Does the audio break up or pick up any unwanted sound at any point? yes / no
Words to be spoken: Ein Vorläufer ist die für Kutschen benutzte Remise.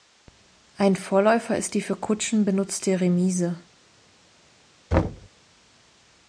yes